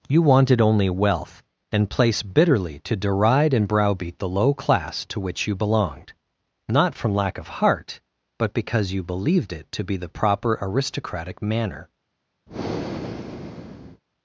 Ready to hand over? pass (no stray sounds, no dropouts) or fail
fail